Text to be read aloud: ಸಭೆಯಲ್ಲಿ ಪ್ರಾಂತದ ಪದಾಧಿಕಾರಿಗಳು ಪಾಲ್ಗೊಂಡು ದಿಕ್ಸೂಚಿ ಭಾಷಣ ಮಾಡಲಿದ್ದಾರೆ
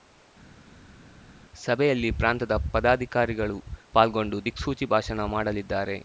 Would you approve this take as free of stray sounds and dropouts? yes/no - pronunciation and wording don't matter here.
yes